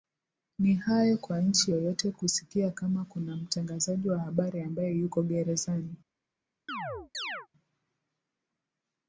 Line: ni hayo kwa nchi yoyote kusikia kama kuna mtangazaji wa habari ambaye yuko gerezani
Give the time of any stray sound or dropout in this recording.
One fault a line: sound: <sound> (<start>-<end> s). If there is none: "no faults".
sound: chirp (6.7-7.5 s)